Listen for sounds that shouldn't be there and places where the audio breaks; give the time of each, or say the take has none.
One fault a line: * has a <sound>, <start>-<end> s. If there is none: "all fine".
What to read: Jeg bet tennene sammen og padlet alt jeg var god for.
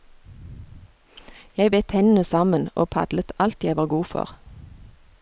all fine